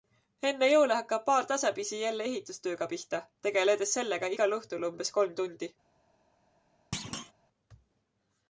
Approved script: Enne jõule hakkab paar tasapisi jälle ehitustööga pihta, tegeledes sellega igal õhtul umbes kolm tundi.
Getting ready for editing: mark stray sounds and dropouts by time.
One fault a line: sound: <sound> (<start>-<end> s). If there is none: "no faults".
sound: thud (6.9-7.3 s)